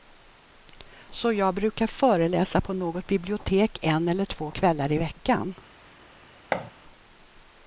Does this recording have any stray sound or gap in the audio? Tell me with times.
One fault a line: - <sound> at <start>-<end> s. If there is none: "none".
- thud at 6.5-6.7 s